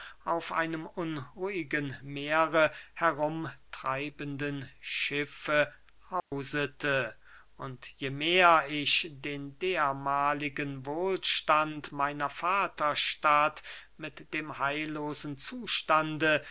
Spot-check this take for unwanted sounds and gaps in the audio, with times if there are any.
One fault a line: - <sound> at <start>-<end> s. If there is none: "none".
- dropout at 6.2-6.3 s